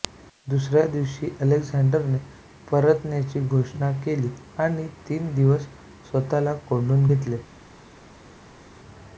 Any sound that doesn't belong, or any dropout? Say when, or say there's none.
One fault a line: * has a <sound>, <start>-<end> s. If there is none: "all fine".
all fine